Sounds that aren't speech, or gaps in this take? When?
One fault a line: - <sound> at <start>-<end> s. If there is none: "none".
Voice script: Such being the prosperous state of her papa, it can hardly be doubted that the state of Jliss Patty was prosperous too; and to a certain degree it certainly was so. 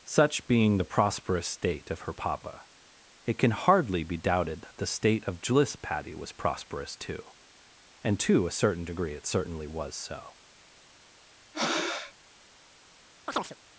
- breath at 11.5-12.1 s
- chirp at 13.3-13.6 s